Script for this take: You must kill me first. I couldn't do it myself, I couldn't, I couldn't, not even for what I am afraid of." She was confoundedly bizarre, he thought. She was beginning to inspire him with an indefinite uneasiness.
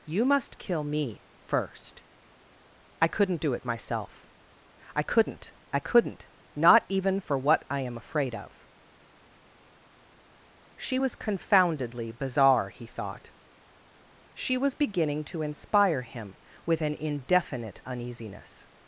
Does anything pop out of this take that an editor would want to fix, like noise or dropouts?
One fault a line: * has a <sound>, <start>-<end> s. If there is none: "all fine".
all fine